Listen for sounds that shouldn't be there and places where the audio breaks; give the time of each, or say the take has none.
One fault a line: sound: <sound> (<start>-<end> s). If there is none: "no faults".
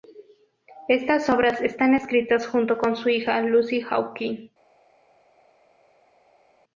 no faults